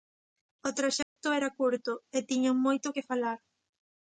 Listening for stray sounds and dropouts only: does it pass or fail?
fail